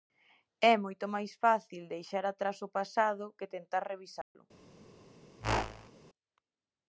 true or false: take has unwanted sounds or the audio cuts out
true